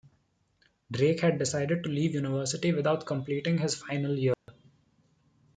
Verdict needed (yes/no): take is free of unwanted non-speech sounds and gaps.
no